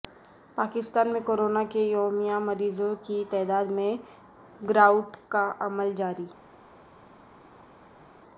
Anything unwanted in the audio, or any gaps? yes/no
no